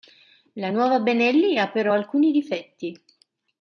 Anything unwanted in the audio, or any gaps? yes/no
no